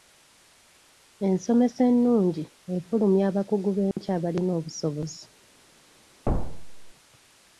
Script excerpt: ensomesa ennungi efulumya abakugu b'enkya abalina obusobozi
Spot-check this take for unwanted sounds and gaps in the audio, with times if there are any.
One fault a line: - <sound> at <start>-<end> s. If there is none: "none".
- dropout at 3.9-4.0 s
- thud at 6.3-6.9 s